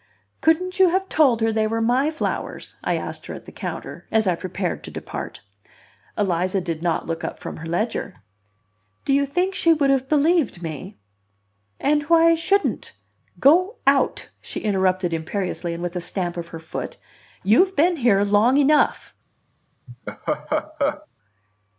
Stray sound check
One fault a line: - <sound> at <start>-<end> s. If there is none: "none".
- laugh at 19.9-21.1 s